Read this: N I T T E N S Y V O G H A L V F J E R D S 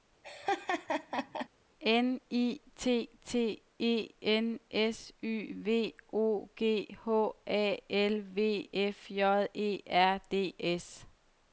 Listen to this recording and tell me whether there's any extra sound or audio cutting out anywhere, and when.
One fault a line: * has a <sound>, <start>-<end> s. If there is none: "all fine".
* has a laugh, 0.2-1.5 s